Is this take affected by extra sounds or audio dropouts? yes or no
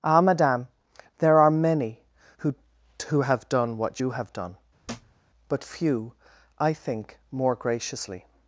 yes